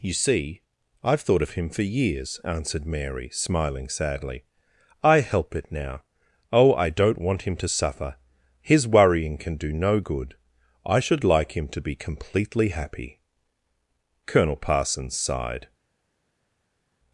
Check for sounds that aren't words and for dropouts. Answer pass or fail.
pass